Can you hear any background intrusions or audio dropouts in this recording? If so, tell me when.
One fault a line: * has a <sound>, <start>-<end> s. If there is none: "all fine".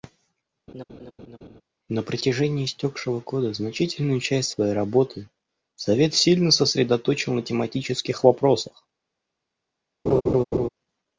* has a laugh, 0.7-1.6 s
* has a laugh, 10.1-10.7 s